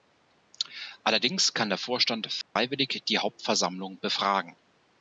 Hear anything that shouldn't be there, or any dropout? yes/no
yes